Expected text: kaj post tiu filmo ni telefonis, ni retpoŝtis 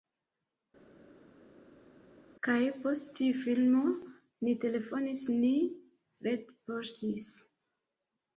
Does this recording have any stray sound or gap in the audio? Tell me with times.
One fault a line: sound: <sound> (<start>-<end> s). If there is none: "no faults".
no faults